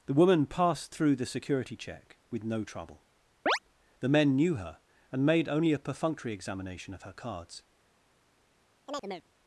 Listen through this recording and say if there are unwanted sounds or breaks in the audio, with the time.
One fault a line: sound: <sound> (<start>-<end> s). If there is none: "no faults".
sound: chirp (3.5-3.6 s)
sound: chirp (8.9-9.3 s)